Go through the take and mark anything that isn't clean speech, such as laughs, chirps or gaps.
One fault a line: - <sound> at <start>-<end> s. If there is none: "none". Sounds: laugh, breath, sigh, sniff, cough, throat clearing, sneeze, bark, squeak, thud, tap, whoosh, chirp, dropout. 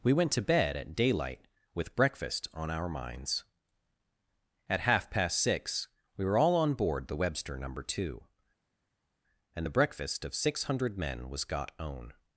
none